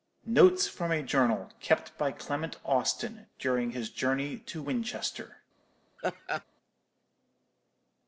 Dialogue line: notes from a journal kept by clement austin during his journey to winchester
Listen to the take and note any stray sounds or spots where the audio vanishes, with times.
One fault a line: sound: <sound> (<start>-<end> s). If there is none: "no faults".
sound: laugh (6.0-6.4 s)